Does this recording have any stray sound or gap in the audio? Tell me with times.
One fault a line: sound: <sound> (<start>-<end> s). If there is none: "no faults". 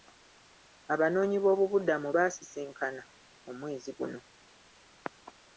no faults